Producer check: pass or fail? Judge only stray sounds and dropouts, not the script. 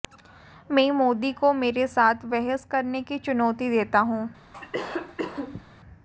fail